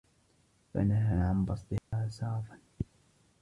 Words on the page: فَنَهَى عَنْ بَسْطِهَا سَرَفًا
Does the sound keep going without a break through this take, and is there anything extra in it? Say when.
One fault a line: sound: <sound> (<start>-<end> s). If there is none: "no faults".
sound: dropout (1.8-1.9 s)